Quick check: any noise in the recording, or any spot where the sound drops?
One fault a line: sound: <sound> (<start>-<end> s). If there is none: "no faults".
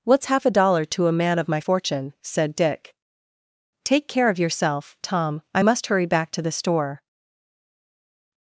no faults